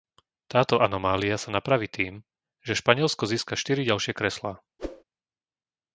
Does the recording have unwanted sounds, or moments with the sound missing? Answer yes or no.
yes